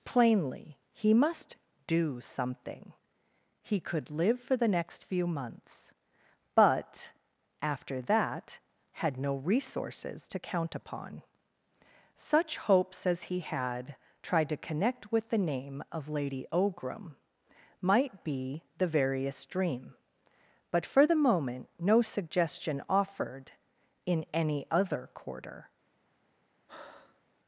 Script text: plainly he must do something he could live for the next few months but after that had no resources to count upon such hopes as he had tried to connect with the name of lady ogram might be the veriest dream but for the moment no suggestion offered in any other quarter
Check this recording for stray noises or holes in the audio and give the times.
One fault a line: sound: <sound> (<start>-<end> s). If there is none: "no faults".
sound: breath (26.7-27.2 s)